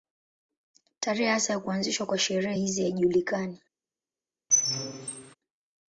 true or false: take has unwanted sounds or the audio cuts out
true